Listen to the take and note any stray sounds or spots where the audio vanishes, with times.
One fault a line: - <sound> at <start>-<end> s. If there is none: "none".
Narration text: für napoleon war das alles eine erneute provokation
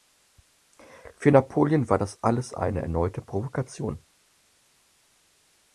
none